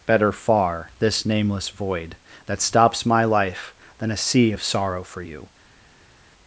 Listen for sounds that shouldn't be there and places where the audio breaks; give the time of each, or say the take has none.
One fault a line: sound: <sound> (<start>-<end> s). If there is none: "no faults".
no faults